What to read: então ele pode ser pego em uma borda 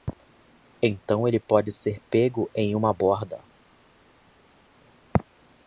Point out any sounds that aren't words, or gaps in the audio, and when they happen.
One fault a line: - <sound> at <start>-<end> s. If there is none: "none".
none